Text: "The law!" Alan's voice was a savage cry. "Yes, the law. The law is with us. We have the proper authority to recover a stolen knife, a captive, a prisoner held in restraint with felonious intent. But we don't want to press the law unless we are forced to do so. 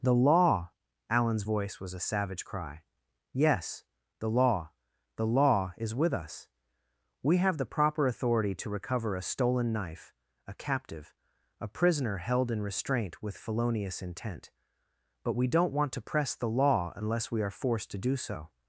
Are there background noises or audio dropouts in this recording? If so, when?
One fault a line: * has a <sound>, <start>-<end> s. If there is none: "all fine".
all fine